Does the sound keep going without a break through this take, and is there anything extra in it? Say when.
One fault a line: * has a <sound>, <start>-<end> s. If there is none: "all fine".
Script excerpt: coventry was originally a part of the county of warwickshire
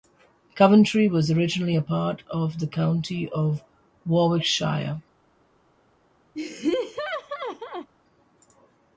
* has a laugh, 6.3-7.9 s